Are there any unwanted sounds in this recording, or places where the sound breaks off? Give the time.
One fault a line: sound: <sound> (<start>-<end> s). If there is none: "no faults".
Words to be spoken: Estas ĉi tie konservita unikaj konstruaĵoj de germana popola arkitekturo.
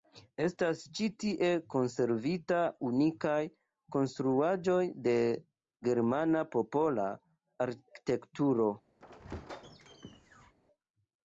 sound: squeak (9.0-10.5 s)